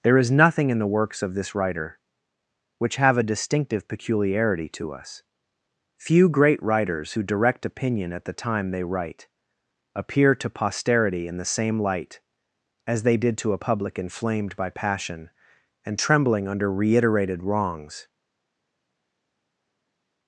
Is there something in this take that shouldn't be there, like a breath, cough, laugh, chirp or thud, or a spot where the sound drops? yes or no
no